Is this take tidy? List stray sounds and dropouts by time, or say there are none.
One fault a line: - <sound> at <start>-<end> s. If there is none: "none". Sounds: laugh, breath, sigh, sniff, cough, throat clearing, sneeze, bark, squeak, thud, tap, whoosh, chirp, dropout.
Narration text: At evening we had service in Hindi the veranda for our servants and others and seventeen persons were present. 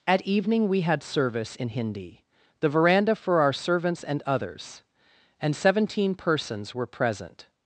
none